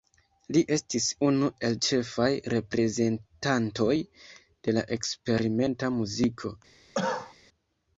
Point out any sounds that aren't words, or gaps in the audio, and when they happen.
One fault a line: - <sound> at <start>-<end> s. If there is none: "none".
- cough at 6.9-7.3 s